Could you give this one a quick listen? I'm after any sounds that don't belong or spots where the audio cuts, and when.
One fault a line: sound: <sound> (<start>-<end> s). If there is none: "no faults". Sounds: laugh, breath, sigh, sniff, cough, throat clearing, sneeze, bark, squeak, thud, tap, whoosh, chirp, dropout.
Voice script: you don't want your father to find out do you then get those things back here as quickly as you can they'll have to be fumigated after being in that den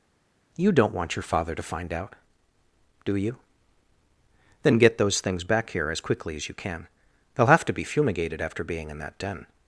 no faults